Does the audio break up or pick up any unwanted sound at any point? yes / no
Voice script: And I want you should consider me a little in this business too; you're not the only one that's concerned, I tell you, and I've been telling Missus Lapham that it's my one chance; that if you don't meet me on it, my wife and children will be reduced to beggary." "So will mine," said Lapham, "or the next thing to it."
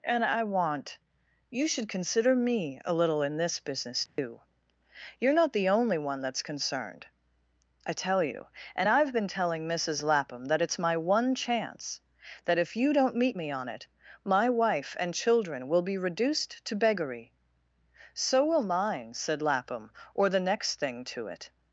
yes